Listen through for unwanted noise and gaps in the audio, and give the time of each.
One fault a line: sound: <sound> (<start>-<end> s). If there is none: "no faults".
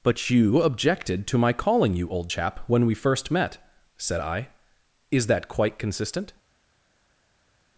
no faults